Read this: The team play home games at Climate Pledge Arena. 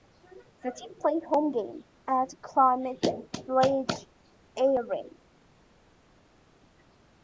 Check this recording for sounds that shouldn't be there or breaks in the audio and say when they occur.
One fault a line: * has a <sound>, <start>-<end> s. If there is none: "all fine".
all fine